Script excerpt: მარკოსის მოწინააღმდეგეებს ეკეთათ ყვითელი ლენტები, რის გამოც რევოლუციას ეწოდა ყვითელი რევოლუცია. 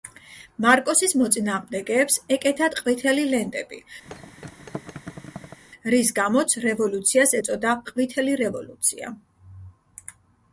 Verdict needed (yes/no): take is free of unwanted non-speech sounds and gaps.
no